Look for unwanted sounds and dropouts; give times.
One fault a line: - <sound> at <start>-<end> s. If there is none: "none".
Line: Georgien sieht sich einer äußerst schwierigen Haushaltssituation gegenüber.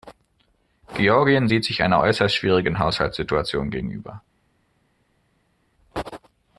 none